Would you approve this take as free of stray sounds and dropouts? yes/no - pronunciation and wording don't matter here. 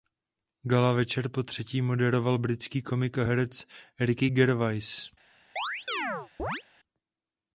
no